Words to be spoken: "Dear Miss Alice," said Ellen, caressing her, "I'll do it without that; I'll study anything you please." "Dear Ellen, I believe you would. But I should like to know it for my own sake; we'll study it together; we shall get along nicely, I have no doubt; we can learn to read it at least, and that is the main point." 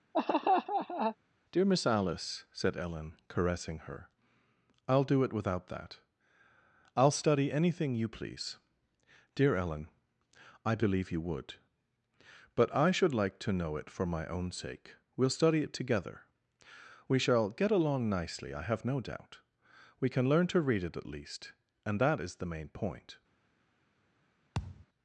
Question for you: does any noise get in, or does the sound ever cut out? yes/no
yes